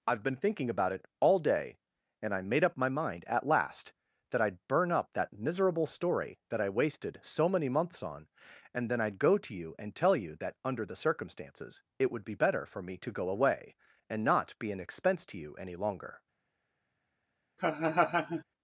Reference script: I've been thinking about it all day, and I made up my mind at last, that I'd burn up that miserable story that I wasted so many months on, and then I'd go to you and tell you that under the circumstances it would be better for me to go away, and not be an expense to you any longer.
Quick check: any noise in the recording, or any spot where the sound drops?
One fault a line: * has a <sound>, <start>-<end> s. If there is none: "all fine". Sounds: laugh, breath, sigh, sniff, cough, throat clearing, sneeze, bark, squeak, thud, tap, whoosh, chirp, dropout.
* has a laugh, 17.6-18.4 s